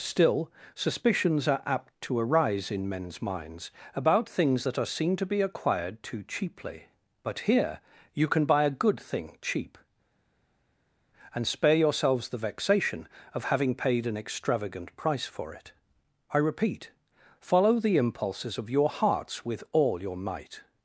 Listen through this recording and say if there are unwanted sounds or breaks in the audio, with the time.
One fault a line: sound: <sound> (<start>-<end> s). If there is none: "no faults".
no faults